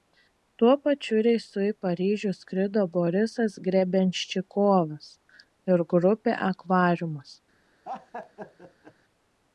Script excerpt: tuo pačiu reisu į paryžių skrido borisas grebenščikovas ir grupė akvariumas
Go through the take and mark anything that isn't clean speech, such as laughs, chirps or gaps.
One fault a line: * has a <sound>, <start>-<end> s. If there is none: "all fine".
* has a laugh, 7.8-8.9 s